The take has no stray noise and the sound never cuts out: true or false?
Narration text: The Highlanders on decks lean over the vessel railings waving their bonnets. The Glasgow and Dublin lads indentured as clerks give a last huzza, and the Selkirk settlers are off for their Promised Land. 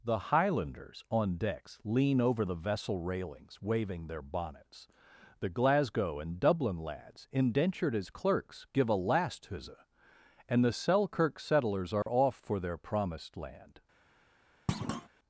false